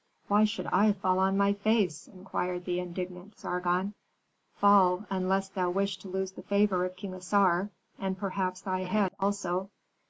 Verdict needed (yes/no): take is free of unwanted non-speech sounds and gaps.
yes